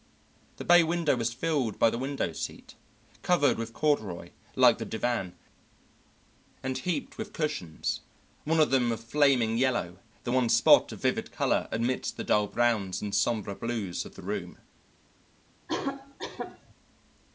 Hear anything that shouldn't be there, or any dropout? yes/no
yes